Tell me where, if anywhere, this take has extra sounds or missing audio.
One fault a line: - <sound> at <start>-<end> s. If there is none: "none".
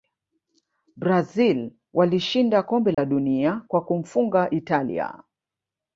- dropout at 2.9-3.0 s